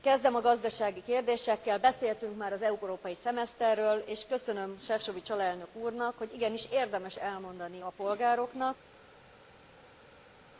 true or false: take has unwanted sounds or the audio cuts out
false